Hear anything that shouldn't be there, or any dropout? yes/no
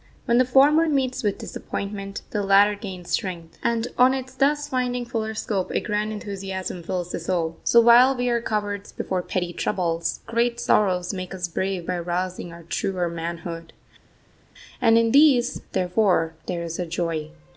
no